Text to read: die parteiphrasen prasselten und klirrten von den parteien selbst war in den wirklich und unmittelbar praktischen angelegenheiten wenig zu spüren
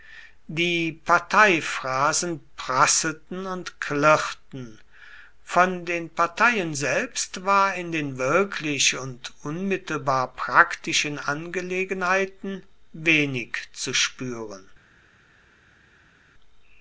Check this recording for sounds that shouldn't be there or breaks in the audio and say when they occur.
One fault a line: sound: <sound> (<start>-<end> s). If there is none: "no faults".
no faults